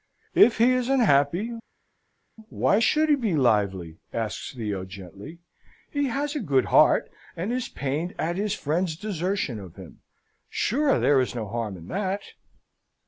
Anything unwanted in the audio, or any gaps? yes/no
no